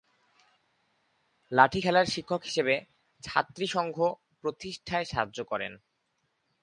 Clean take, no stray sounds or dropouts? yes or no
yes